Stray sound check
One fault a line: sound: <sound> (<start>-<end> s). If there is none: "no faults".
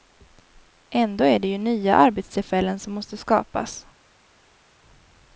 no faults